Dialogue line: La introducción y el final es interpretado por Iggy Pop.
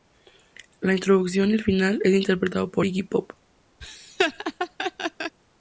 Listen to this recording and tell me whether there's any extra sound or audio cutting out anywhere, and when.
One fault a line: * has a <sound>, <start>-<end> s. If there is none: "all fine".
* has a laugh, 3.8-5.4 s